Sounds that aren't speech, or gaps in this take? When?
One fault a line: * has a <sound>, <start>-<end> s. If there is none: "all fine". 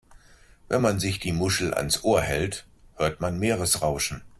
all fine